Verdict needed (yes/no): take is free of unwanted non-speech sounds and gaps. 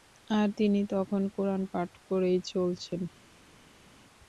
yes